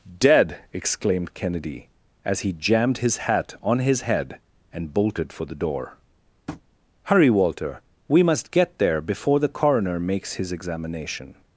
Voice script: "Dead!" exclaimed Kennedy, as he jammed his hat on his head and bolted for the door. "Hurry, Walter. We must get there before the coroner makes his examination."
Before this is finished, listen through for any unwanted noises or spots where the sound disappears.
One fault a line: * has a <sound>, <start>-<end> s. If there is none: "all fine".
* has a tap, 6.5-6.6 s